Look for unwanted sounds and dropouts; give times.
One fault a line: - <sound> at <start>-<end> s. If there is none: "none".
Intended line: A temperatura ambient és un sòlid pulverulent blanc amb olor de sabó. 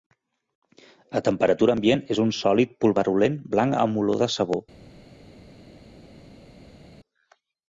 none